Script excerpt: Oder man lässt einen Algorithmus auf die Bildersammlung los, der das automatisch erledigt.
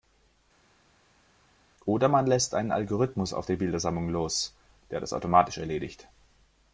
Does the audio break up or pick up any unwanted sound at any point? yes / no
no